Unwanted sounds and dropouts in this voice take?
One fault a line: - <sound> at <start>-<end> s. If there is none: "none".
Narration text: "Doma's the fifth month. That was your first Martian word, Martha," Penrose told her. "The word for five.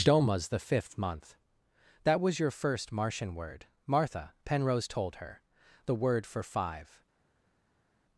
none